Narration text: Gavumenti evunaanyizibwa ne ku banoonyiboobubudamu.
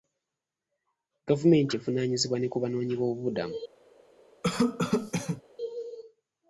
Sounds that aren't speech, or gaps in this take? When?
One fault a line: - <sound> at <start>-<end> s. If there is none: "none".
- cough at 4.4-5.4 s